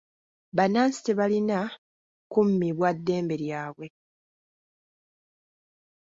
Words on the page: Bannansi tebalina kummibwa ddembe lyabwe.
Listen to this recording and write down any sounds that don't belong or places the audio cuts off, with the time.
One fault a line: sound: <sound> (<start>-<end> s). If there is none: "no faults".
no faults